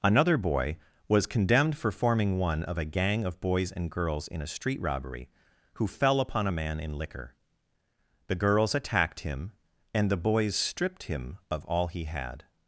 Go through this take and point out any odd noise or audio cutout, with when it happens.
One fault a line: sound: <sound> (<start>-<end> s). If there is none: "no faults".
no faults